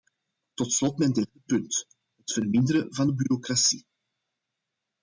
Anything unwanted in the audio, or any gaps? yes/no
no